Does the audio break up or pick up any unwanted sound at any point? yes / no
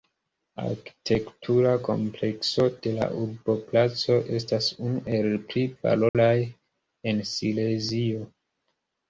yes